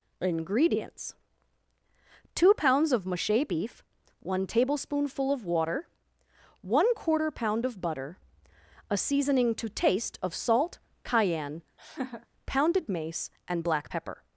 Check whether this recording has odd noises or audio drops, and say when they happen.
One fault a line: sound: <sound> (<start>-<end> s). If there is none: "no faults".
sound: laugh (11.8-12.3 s)